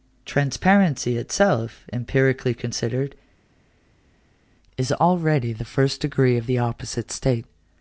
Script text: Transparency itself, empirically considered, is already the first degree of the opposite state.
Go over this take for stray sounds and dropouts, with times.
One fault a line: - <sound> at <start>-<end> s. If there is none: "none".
none